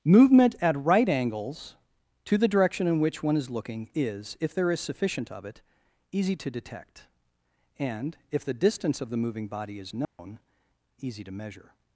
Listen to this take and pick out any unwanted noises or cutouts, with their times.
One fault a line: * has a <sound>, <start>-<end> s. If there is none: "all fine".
* has a dropout, 10.0-10.2 s